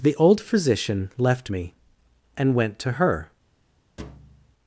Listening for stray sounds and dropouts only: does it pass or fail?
fail